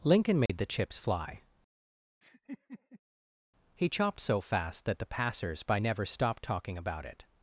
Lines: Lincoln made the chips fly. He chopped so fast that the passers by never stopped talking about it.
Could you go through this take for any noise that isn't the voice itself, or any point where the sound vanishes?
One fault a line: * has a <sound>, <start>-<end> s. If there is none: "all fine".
* has a dropout, 0.5-0.5 s
* has a laugh, 2.2-3.0 s